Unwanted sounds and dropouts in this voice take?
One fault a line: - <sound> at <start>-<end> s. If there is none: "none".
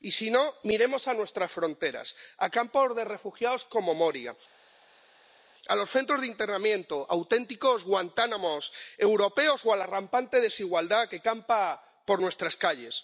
none